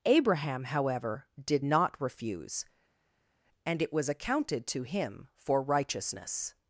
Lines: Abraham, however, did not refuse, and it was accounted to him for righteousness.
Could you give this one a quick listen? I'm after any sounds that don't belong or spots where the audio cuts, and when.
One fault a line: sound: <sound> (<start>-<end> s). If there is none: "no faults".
no faults